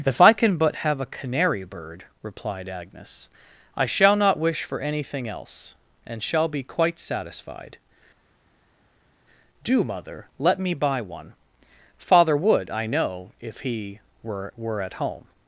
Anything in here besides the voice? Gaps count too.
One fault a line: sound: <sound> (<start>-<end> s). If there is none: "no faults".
no faults